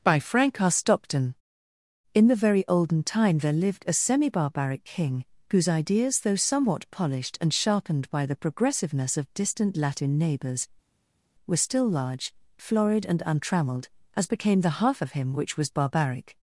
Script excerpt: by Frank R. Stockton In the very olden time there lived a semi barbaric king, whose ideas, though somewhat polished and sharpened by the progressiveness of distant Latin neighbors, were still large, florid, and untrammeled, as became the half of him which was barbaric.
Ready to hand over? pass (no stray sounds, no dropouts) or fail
pass